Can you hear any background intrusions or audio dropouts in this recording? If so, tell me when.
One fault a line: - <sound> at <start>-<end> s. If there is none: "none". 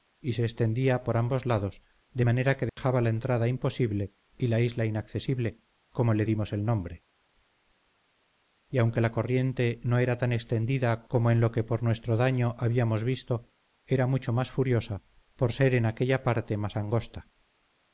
- dropout at 2.7-2.8 s